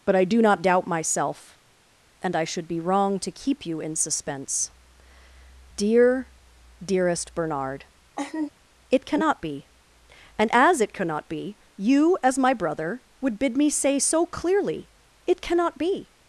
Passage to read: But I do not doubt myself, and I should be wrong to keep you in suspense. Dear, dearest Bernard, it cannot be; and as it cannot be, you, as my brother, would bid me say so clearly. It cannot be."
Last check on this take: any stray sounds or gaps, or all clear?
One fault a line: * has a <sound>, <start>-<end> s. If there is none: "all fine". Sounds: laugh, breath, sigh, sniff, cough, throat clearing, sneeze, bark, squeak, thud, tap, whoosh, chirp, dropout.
* has a laugh, 8.2-8.5 s